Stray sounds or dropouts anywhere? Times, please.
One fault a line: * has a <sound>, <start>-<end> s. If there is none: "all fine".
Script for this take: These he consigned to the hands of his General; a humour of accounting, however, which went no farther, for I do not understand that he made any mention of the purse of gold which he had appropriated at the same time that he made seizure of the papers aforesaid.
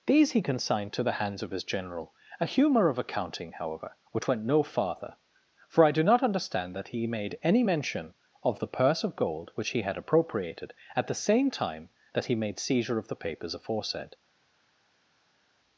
all fine